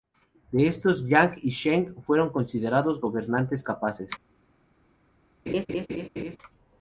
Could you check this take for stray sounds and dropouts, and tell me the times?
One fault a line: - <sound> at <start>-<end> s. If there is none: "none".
- laugh at 5.5-6.4 s